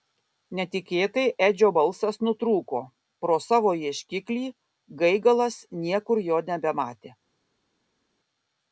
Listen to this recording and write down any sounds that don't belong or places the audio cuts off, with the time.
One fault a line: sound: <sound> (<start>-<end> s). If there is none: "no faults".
no faults